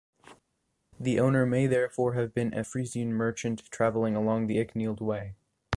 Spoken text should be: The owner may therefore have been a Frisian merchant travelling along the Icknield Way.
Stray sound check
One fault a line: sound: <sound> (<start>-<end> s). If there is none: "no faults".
no faults